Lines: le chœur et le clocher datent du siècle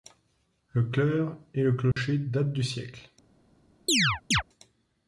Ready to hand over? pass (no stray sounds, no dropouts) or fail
fail